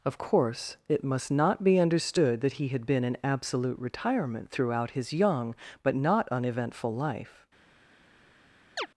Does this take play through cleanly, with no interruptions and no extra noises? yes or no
no